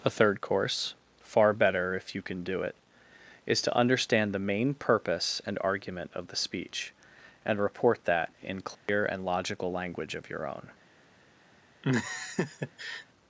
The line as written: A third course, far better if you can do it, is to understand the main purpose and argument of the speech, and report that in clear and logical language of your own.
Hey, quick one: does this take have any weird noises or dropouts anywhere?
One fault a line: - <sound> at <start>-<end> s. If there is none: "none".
- dropout at 8.7-8.9 s
- laugh at 11.8-13.1 s